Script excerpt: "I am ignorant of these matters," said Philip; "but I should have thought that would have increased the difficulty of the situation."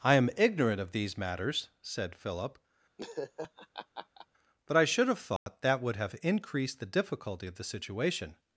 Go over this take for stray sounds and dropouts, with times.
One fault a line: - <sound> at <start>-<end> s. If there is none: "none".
- laugh at 3.0-4.3 s
- dropout at 5.4-5.5 s